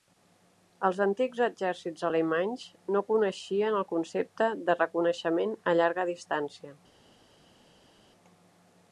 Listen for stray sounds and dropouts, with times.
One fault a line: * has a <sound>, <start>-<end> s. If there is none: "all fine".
all fine